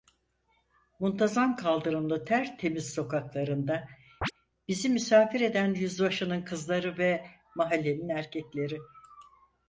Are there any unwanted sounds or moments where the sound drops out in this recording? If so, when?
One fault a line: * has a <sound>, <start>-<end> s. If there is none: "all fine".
* has a chirp, 4.2-4.3 s